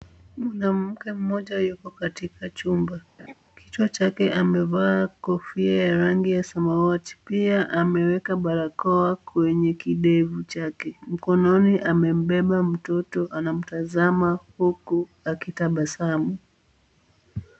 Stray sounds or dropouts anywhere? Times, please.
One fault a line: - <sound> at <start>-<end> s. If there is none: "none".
- laugh at 3.2-3.3 s